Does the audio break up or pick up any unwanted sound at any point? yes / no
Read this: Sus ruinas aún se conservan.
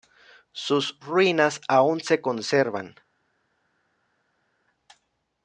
no